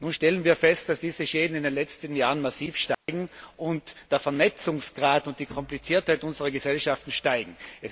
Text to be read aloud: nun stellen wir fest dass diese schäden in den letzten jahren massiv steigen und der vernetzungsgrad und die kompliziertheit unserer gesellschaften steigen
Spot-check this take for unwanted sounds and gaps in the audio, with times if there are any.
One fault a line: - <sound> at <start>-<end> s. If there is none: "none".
- dropout at 2.9-3.1 s